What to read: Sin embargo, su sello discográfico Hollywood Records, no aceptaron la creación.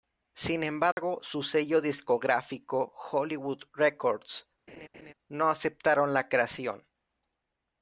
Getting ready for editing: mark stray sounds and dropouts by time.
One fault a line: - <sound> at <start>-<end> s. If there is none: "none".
- dropout at 0.9-1.0 s
- laugh at 4.7-5.1 s